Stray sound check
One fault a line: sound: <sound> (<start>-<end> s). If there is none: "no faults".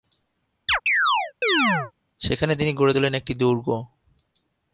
sound: chirp (0.7-1.9 s)